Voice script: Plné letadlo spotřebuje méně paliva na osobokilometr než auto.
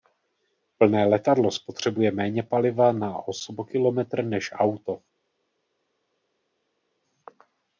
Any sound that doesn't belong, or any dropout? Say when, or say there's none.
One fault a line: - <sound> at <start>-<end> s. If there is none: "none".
none